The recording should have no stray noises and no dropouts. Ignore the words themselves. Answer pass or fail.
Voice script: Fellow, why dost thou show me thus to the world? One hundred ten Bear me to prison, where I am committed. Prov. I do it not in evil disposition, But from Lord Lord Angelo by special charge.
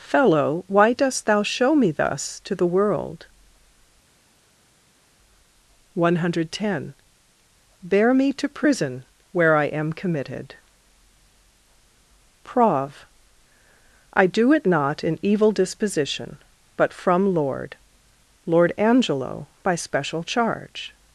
pass